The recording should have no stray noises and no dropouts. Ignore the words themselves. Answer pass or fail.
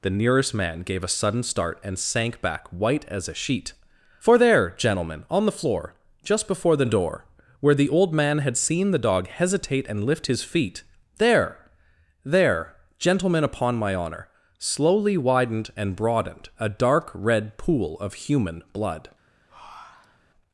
fail